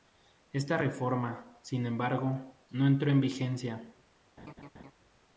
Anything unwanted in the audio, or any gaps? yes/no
yes